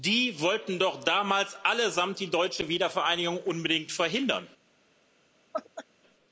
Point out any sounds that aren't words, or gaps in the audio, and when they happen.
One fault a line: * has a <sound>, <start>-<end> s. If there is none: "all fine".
* has a laugh, 5.5-5.8 s